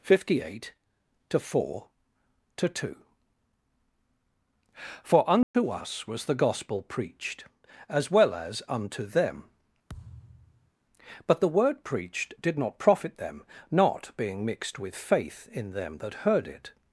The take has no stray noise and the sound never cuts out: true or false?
false